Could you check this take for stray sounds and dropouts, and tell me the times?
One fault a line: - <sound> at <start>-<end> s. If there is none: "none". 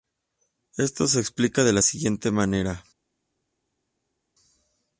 none